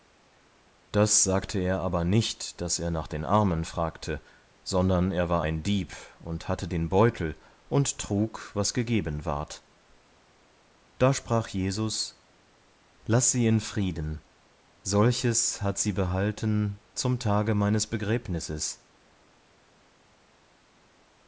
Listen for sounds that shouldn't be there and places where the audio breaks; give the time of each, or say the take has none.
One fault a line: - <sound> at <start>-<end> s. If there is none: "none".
none